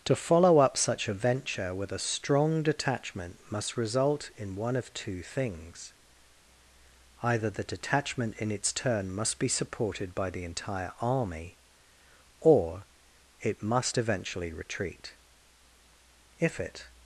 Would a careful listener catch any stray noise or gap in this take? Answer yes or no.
no